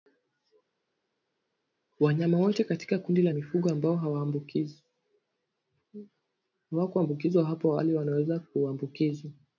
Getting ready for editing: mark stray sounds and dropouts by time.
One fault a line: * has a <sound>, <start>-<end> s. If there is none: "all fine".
all fine